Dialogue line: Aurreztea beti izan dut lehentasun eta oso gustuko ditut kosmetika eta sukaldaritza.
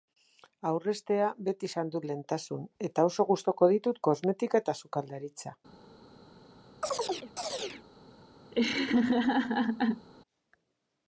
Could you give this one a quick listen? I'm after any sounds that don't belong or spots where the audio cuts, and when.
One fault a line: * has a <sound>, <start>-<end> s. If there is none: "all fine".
* has a chirp, 6.8-7.8 s
* has a laugh, 8.5-10.1 s